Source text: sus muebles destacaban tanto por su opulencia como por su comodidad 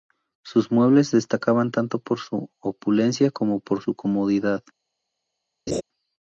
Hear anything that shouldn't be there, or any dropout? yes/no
yes